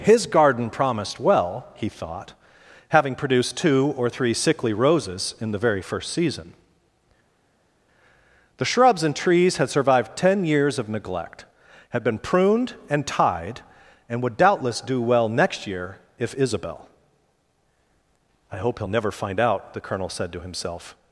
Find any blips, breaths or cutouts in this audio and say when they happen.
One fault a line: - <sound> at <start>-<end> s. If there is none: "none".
none